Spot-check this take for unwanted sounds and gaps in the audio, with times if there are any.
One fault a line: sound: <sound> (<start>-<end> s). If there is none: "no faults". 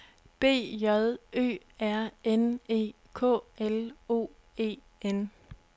no faults